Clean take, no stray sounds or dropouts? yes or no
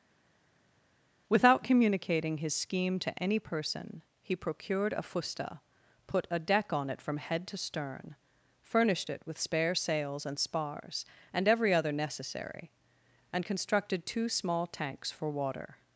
yes